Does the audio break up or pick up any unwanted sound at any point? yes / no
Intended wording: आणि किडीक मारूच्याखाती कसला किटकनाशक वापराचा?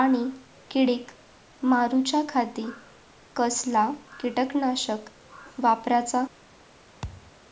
yes